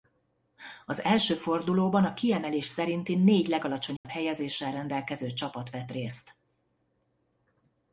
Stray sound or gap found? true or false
true